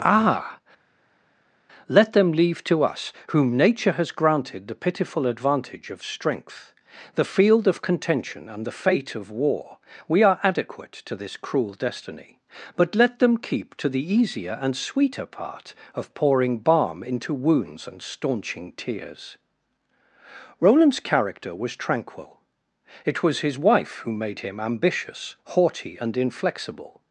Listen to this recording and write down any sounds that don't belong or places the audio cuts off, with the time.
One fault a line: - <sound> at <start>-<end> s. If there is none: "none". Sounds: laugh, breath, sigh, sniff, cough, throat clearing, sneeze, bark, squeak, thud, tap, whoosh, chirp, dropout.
none